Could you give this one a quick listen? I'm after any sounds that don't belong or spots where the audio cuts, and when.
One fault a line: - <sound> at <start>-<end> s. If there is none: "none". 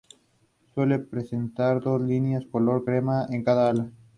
none